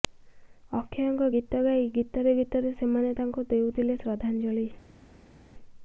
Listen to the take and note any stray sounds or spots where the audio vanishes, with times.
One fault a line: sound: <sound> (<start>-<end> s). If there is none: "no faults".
no faults